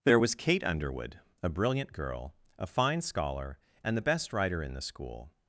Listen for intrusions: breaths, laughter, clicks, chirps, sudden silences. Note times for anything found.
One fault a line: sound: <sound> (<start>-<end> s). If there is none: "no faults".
no faults